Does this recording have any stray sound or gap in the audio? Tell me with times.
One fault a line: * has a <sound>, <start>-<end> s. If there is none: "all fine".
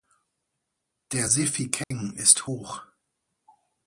* has a dropout, 1.8-1.9 s